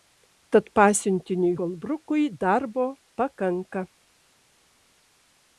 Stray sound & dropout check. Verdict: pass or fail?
pass